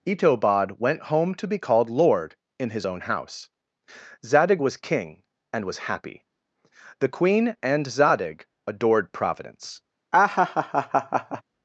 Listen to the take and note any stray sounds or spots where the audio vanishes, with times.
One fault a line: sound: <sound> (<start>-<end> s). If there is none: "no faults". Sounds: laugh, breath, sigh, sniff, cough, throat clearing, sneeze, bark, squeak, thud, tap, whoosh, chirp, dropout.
sound: laugh (10.1-11.4 s)